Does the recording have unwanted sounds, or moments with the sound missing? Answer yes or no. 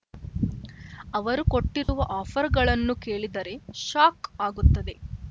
yes